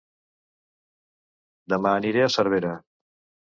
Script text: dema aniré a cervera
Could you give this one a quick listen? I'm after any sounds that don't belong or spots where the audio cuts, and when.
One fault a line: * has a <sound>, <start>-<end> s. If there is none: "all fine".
all fine